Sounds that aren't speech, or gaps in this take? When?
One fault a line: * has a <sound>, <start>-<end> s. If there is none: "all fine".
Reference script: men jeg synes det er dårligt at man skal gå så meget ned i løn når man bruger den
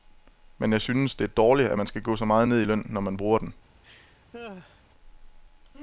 * has a laugh, 3.8-4.8 s